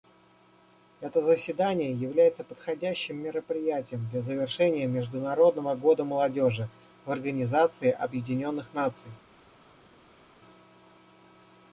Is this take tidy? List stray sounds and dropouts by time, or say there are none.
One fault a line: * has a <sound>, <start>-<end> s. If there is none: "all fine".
all fine